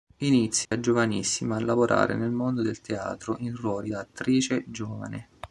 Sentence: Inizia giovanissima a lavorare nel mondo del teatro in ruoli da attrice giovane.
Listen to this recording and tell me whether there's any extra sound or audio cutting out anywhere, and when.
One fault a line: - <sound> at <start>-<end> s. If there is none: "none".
- dropout at 0.7-0.7 s